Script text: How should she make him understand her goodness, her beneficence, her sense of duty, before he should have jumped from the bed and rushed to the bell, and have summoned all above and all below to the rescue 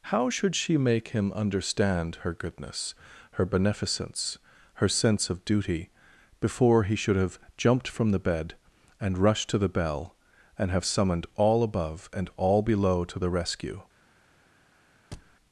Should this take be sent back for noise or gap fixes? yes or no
yes